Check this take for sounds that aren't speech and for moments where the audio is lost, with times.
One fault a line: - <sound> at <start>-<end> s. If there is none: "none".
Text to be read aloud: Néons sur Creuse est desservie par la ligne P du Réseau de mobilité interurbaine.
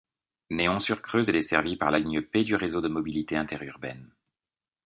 none